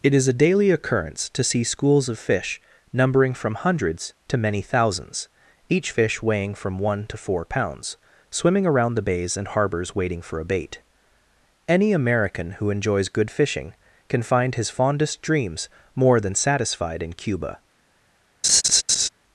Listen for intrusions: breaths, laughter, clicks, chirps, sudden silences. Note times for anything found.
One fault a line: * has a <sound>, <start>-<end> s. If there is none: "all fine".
* has a laugh, 18.4-19.1 s